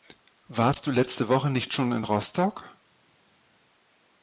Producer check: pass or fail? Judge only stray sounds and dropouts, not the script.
pass